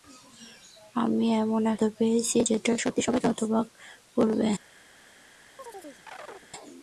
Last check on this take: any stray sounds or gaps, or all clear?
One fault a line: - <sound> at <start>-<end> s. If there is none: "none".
- chirp at 5.6-6.5 s